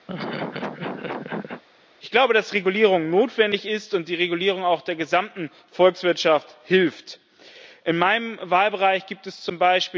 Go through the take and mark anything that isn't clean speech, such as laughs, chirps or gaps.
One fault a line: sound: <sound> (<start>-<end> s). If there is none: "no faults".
sound: laugh (0.1-1.6 s)